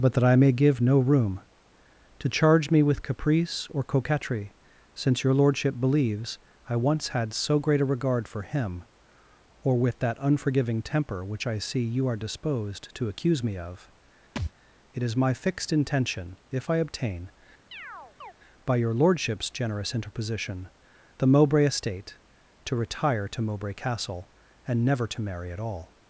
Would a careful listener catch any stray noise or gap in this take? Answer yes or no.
yes